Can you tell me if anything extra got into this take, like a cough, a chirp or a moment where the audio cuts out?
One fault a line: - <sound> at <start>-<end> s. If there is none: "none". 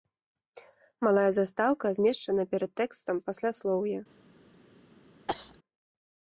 - cough at 5.3-5.6 s